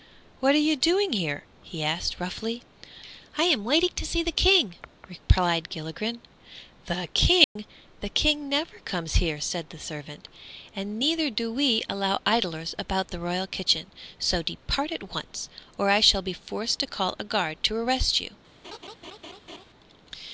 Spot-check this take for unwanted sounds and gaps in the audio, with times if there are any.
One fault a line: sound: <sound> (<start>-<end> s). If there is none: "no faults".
sound: dropout (7.4-7.6 s)
sound: laugh (18.6-19.7 s)